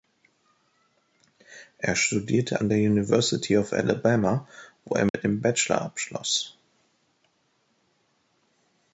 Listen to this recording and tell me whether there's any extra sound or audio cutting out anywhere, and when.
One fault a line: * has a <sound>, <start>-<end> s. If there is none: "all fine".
* has a dropout, 5.1-5.1 s